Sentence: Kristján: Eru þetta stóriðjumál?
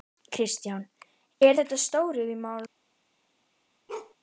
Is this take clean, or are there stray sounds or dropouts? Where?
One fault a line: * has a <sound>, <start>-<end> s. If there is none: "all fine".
* has a bark, 3.9-4.1 s